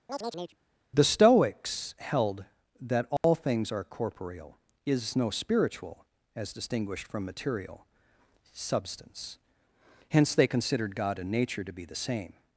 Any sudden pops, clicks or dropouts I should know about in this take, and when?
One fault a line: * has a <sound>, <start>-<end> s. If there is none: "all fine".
* has a chirp, 0.1-0.6 s
* has a dropout, 3.2-3.2 s